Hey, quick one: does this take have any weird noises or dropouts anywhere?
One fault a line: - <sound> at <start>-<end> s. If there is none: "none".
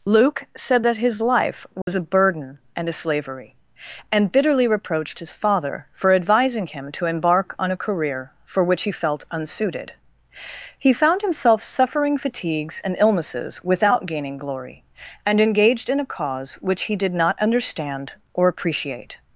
- dropout at 1.8-1.9 s